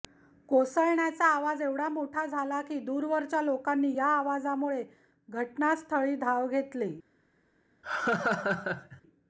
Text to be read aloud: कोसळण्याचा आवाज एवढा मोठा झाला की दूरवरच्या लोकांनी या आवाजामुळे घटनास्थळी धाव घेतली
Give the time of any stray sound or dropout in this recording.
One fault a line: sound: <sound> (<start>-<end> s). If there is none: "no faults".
sound: laugh (7.8-9.0 s)